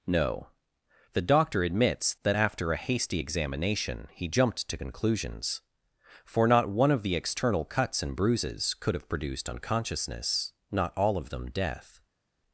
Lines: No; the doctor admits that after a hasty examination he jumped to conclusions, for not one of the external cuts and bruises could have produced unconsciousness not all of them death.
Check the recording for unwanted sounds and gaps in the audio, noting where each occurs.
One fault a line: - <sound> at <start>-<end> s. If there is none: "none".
none